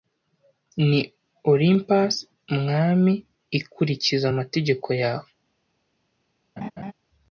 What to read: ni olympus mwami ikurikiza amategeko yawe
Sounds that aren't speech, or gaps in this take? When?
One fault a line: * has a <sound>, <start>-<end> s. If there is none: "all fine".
* has a laugh, 6.6-6.9 s